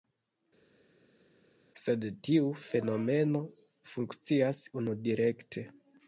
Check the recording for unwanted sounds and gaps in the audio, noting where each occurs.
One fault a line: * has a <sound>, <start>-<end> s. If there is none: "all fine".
all fine